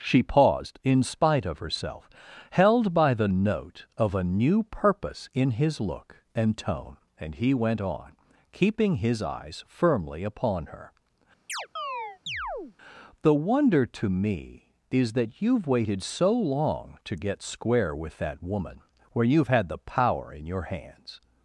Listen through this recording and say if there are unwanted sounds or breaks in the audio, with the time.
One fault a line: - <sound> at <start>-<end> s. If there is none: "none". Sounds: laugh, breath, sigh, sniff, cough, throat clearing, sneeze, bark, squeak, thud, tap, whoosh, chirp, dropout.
- chirp at 11.5-12.8 s